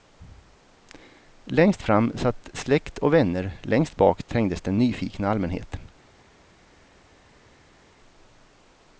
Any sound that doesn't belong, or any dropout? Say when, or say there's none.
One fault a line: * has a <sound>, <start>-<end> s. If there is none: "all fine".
all fine